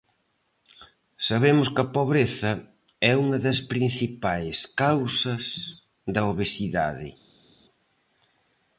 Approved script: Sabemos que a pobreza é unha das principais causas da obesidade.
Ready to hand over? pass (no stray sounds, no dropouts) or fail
pass